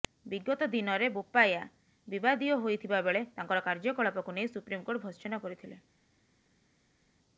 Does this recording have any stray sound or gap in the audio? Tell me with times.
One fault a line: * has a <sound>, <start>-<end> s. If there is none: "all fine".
all fine